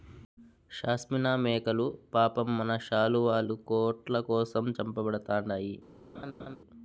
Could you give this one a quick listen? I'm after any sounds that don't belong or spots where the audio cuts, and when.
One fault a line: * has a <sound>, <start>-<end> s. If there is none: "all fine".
* has a laugh, 6.1-6.6 s